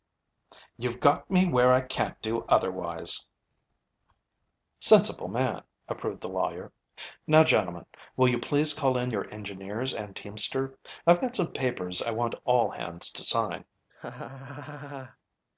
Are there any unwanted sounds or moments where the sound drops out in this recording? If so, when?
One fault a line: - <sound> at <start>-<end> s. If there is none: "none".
- laugh at 13.9-15.2 s